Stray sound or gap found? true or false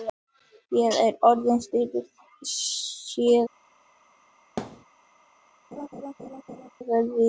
true